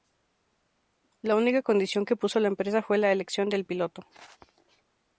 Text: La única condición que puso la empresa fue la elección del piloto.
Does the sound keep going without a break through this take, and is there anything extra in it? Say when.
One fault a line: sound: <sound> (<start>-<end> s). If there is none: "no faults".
no faults